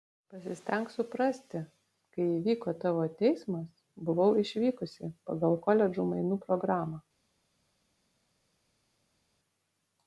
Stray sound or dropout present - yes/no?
no